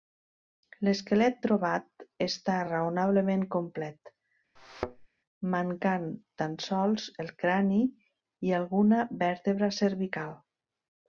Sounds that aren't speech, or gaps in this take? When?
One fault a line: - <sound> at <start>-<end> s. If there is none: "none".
- thud at 4.6-5.1 s